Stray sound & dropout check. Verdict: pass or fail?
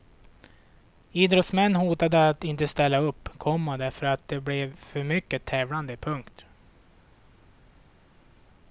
pass